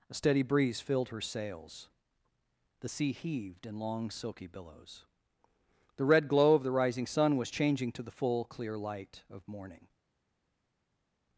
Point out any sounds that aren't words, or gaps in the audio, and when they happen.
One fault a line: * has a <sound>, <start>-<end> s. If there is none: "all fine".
all fine